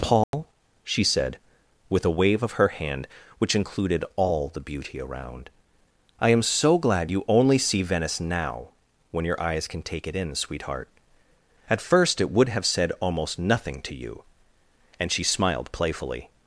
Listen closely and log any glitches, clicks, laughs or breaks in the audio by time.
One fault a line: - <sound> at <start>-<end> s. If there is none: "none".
- dropout at 0.2-0.3 s